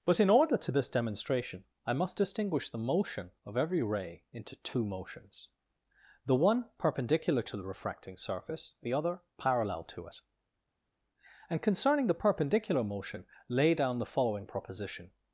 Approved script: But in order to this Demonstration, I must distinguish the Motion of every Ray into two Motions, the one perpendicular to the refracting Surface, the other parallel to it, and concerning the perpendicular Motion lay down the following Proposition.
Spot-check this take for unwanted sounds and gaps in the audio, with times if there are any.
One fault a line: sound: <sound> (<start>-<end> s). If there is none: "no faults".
no faults